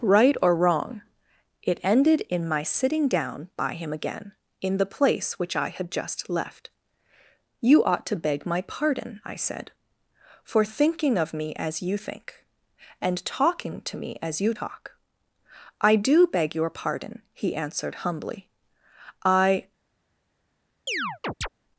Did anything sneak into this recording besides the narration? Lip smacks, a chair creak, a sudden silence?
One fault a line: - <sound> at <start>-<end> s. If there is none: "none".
- chirp at 20.9-21.5 s